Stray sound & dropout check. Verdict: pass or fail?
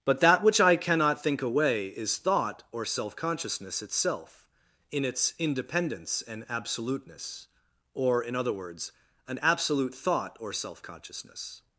pass